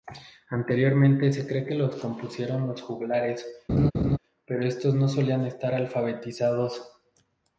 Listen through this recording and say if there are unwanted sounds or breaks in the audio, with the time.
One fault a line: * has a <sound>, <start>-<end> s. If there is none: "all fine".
* has a laugh, 3.7-4.2 s